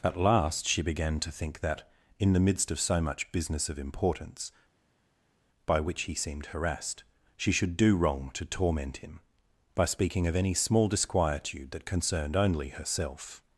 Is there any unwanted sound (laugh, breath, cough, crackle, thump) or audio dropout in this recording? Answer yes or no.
no